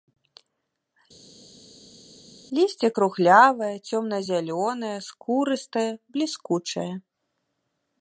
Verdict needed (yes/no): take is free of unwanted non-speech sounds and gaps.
yes